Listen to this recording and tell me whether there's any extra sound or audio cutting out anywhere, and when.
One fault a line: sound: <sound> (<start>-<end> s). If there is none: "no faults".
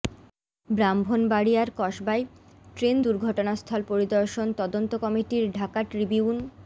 no faults